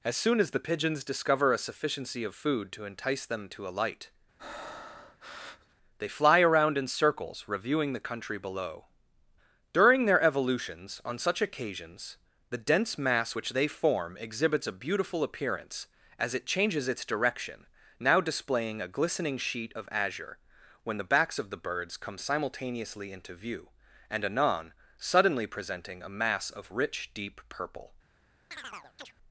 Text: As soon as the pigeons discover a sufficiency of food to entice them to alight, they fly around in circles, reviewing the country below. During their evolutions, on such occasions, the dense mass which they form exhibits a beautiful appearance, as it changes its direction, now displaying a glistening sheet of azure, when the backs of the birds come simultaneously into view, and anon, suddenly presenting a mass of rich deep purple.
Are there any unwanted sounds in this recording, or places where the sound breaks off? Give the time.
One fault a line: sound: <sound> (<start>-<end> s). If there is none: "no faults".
sound: breath (4.4-5.8 s)
sound: chirp (28.5-29.1 s)